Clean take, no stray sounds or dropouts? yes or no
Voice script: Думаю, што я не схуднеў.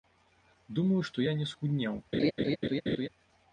no